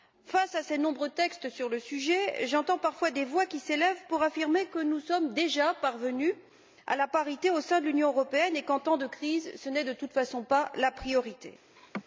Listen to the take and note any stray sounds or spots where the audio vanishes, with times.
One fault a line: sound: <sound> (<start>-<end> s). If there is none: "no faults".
sound: laugh (11.8-12.0 s)